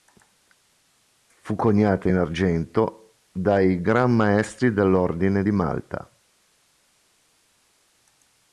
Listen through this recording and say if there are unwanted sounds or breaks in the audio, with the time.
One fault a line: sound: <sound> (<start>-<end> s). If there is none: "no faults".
no faults